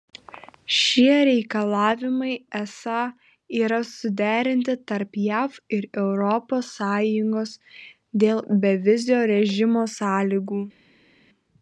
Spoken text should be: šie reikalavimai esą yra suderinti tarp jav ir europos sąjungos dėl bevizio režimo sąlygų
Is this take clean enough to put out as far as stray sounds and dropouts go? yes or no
yes